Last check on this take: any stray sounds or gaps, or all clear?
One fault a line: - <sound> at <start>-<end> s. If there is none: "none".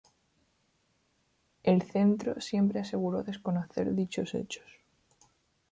none